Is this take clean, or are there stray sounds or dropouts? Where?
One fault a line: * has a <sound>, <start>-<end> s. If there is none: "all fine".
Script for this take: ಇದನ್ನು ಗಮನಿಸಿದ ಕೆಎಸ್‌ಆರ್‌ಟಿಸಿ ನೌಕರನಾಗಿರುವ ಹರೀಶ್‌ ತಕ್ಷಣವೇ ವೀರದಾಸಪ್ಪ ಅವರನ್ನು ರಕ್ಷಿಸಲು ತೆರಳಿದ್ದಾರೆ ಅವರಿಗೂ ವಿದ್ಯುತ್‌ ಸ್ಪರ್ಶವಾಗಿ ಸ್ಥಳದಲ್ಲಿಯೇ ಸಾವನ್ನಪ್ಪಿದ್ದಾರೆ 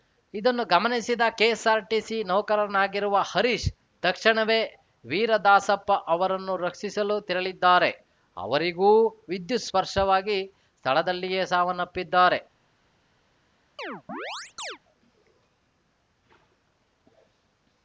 * has a chirp, 13.8-14.8 s